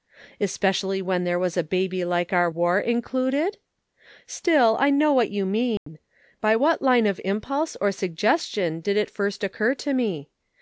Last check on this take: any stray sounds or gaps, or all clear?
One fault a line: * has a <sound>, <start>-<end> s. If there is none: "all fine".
* has a dropout, 5.8-5.9 s